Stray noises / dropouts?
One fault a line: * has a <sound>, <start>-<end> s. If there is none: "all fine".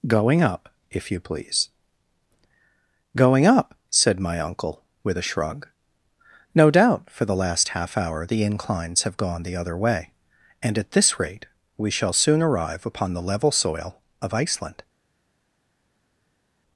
all fine